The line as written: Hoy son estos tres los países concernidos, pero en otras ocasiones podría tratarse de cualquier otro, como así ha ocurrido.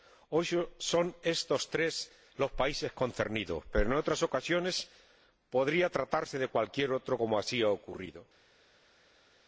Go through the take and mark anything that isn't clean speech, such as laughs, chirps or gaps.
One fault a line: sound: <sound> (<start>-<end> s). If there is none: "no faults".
no faults